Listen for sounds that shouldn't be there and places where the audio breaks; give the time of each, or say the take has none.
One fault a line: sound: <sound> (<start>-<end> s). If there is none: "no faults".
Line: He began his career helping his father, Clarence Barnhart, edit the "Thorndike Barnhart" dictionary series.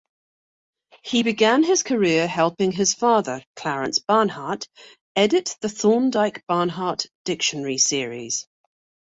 no faults